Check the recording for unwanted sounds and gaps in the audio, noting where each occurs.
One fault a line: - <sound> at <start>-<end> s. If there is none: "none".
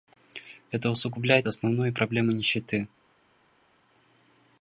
none